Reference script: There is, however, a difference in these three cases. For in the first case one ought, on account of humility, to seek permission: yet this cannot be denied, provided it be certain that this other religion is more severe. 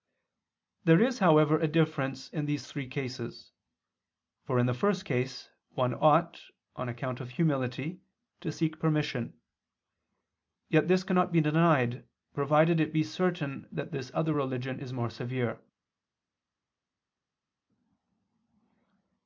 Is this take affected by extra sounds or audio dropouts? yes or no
no